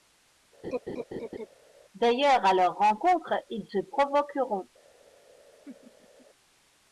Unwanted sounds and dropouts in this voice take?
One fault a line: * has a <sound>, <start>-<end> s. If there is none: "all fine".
* has a laugh, 0.6-1.5 s
* has a laugh, 5.7-6.3 s